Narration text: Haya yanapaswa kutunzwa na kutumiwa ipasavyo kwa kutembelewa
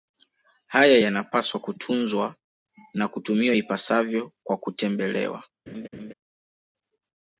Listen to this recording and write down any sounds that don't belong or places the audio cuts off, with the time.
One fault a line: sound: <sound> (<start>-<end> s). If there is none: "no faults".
sound: laugh (5.7-6.1 s)